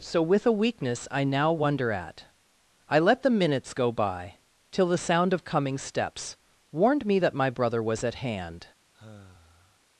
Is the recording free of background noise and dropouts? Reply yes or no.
no